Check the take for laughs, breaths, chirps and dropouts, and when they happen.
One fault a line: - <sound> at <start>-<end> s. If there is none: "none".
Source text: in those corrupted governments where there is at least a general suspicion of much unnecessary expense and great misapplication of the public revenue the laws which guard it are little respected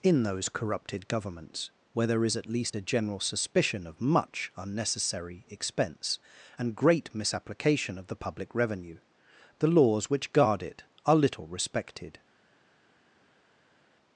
none